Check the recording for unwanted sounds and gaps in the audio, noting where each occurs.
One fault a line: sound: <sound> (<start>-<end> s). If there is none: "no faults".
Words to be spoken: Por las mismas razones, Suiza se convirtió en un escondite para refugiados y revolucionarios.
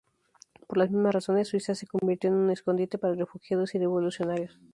no faults